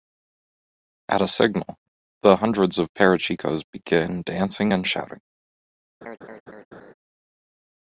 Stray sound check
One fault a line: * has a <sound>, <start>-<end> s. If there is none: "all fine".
* has a laugh, 6.0-6.9 s